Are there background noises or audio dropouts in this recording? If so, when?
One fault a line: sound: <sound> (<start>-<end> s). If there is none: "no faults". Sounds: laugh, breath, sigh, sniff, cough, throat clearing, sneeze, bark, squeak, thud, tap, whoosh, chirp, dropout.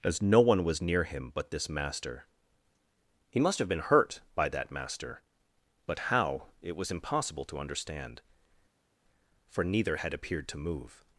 no faults